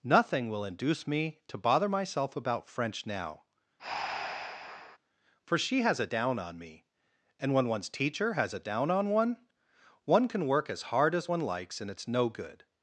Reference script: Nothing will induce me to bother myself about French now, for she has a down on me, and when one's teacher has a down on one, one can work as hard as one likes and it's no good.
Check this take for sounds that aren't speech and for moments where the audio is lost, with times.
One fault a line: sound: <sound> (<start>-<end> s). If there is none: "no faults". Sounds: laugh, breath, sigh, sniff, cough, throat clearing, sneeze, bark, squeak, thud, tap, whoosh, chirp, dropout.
sound: breath (3.8-5.0 s)